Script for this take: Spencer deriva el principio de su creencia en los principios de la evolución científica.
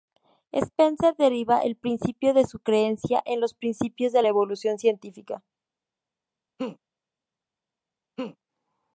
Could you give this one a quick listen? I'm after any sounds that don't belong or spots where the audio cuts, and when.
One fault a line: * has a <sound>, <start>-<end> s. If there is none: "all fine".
* has a laugh, 6.6-6.8 s
* has a laugh, 8.2-8.4 s